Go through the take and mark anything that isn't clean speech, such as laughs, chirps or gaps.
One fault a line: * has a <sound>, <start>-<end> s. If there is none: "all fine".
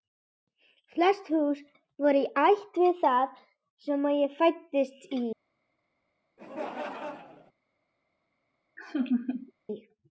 * has a laugh, 6.4-7.5 s
* has a laugh, 8.8-9.5 s